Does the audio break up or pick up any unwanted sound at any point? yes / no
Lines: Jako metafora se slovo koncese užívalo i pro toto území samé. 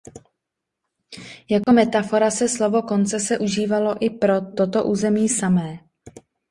yes